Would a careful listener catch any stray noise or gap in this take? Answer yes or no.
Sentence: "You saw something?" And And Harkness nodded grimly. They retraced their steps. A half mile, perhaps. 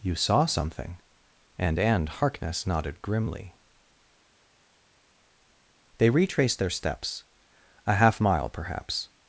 no